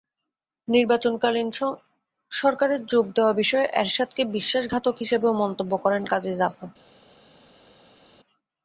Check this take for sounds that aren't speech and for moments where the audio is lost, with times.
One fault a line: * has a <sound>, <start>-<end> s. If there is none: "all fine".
all fine